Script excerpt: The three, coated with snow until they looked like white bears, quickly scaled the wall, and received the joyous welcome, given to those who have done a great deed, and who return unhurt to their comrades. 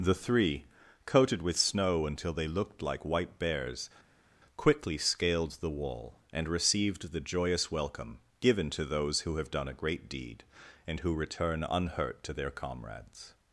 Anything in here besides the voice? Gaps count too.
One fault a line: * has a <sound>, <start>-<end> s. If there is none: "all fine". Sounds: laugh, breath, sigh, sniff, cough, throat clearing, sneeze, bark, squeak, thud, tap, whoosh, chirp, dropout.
all fine